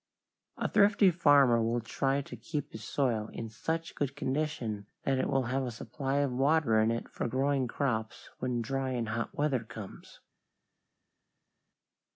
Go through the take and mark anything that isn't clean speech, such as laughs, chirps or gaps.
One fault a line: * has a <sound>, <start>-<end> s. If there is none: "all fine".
all fine